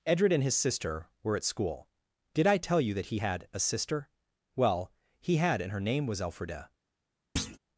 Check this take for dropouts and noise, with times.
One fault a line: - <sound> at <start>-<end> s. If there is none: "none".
- thud at 7.4-7.6 s